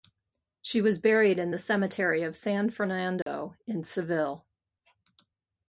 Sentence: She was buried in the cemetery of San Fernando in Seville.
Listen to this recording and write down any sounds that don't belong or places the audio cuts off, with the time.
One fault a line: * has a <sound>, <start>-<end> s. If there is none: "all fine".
* has a dropout, 3.2-3.3 s